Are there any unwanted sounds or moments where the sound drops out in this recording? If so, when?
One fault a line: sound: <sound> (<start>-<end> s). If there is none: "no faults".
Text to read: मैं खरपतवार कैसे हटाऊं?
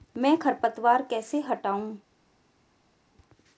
no faults